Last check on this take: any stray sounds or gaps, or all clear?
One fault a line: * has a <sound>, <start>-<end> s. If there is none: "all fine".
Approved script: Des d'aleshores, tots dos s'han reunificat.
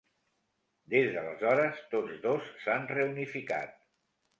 all fine